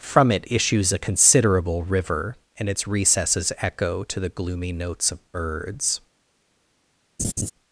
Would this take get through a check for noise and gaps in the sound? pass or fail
fail